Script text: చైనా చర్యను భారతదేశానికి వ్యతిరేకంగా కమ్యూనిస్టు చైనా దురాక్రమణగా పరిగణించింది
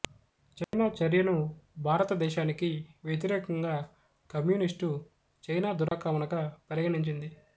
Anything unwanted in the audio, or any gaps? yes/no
yes